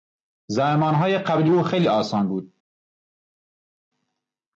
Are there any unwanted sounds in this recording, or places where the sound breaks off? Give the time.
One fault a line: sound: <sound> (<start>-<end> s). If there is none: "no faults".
no faults